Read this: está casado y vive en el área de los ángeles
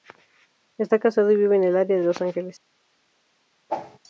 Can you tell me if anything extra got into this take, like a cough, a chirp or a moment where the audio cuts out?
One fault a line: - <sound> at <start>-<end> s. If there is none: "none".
- whoosh at 3.7-4.0 s